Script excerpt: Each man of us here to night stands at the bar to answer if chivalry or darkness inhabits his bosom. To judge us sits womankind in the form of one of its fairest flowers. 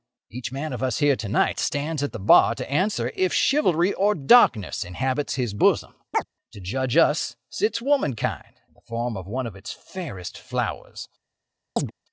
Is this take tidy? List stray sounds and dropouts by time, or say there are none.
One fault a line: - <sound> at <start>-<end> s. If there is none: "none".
- chirp at 6.1-6.3 s
- chirp at 11.8-11.9 s